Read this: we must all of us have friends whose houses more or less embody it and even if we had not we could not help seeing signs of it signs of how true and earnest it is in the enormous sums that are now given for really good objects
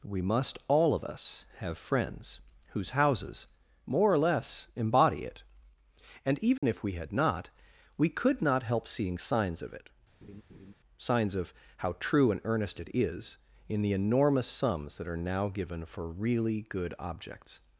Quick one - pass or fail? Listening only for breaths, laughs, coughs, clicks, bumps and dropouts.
fail